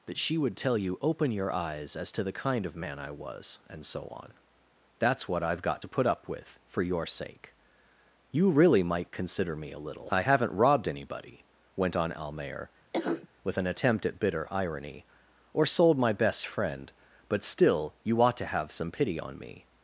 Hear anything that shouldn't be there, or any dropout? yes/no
yes